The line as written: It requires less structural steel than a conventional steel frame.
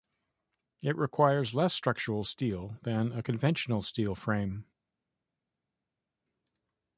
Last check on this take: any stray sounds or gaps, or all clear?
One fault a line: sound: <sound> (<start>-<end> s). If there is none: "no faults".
no faults